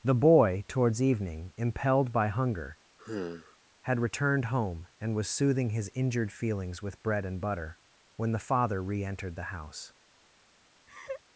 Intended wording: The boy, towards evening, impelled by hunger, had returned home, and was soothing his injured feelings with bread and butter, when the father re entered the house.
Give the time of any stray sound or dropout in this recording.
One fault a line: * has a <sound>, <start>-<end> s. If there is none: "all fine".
* has a sigh, 3.0-3.6 s
* has a laugh, 10.9-11.2 s